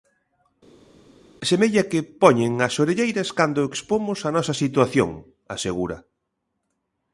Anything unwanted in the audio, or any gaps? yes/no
no